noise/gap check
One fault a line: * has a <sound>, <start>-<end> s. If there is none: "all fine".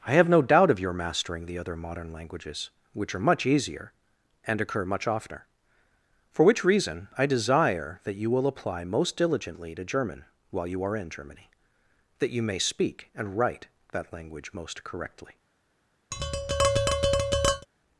* has a tap, 16.1-17.7 s